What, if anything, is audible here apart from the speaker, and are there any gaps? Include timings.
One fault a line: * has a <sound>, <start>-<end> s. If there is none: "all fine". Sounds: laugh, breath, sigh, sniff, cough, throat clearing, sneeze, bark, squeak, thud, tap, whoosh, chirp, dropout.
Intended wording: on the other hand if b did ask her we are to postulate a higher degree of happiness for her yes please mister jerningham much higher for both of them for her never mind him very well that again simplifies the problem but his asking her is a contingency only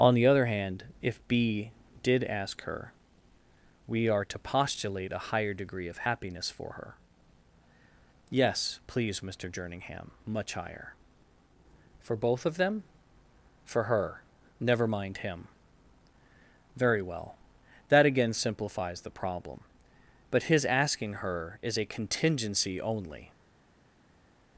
all fine